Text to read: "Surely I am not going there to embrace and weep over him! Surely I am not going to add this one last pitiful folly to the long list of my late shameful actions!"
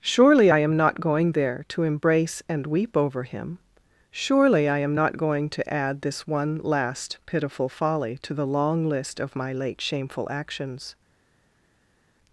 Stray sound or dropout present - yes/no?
no